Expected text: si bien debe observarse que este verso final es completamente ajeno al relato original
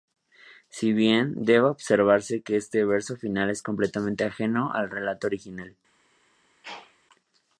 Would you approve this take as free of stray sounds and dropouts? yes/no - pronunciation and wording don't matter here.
no